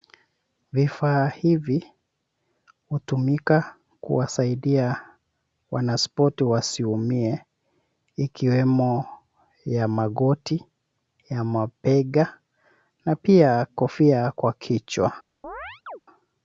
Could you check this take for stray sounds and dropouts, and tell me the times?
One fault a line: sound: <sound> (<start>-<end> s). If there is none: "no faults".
sound: chirp (15.4-16.0 s)